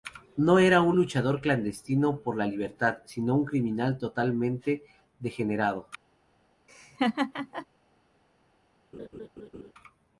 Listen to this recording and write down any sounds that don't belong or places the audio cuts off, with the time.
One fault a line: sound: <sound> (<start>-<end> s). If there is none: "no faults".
sound: laugh (6.7-7.7 s)
sound: laugh (8.9-9.7 s)